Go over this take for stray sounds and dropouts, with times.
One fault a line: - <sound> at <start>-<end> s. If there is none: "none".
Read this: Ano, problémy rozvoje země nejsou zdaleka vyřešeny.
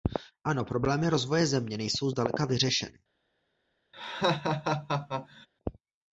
- laugh at 3.9-5.5 s